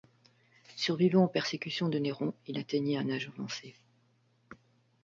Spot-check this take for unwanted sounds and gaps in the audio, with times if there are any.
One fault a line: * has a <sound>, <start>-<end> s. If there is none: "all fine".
all fine